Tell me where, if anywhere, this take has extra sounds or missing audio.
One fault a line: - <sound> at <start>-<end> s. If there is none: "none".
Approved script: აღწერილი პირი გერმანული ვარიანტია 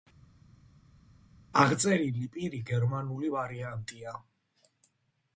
none